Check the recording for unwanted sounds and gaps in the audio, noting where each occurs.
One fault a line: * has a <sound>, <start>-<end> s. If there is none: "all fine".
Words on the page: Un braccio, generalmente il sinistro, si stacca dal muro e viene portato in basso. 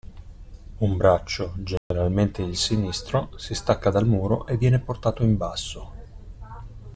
* has a dropout, 1.8-1.9 s